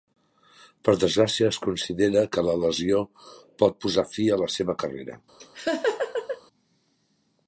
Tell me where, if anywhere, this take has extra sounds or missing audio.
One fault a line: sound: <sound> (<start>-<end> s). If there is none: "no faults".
sound: laugh (5.4-6.4 s)